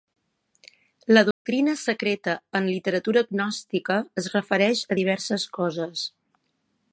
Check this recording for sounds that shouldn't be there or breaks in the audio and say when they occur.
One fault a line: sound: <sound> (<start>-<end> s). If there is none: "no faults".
sound: dropout (1.3-1.5 s)